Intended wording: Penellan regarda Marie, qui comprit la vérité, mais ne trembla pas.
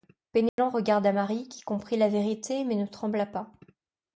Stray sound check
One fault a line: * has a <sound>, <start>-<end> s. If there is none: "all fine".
* has a dropout, 0.5-0.6 s